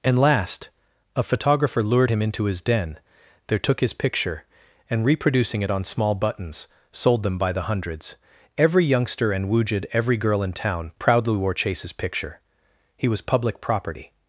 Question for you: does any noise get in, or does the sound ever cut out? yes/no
no